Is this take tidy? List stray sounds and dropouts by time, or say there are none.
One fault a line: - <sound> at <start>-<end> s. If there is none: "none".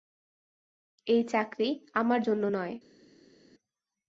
none